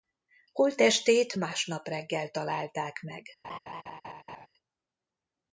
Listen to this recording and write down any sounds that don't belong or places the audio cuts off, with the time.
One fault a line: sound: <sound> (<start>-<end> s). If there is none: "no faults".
sound: laugh (3.4-4.5 s)